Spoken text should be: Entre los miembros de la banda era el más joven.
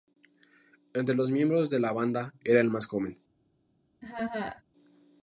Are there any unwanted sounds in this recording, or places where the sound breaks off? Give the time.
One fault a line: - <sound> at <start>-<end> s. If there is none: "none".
- laugh at 4.0-4.6 s